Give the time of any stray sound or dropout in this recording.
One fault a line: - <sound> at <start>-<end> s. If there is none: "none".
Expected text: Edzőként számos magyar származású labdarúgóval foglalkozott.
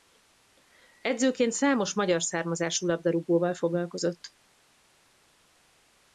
none